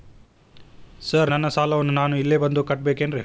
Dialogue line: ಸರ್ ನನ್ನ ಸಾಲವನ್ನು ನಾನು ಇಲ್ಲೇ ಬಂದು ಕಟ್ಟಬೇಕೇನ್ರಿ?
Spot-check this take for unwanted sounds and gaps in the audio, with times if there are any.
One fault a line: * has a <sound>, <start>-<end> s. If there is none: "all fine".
all fine